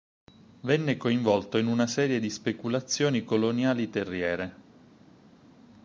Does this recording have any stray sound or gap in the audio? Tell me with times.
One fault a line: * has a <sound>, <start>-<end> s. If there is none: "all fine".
all fine